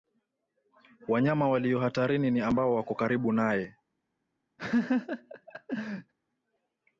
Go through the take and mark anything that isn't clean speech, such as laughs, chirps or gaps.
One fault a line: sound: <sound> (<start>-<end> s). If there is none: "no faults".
sound: laugh (4.6-6.1 s)